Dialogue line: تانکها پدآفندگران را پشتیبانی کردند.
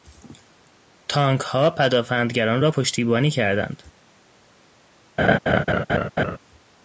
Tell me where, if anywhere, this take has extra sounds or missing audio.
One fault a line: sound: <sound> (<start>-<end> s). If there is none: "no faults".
sound: laugh (5.2-6.4 s)